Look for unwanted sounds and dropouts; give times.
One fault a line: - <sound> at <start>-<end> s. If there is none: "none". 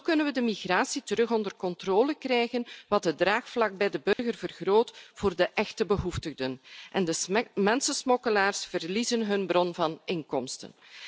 - dropout at 4.1-4.2 s